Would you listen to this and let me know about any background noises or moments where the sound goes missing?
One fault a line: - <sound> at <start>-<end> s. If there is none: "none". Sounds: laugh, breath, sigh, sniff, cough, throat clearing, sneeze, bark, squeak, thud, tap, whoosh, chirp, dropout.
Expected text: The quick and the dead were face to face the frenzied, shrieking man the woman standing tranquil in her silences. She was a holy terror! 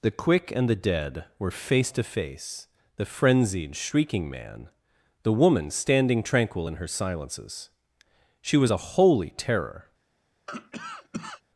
- cough at 10.5-11.4 s